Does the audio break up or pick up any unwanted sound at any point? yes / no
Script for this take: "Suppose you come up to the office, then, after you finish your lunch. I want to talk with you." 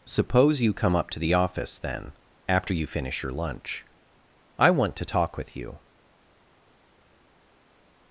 no